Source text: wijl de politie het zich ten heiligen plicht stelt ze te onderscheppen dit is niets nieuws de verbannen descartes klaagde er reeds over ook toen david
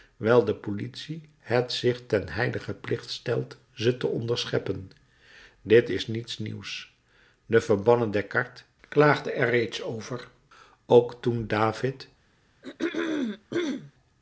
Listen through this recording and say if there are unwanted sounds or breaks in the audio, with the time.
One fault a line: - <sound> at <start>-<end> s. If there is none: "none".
- throat clearing at 12.6-13.9 s